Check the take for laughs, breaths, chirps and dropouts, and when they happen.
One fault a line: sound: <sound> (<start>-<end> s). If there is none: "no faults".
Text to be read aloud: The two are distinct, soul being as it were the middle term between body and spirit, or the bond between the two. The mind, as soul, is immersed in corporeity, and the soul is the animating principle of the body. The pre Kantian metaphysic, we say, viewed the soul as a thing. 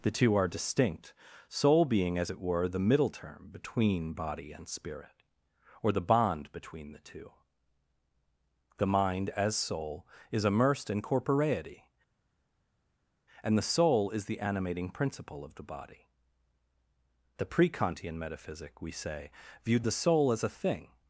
no faults